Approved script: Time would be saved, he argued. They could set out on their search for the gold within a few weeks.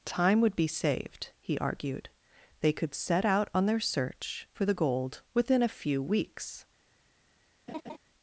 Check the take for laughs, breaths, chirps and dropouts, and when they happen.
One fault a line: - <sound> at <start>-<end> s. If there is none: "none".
- laugh at 7.7-8.0 s